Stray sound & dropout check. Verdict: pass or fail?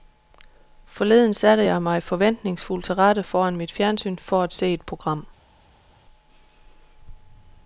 pass